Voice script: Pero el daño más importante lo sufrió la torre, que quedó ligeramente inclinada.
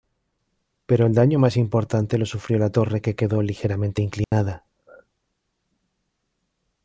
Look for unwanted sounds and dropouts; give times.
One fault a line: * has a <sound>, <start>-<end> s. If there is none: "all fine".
* has a dropout, 4.2-4.3 s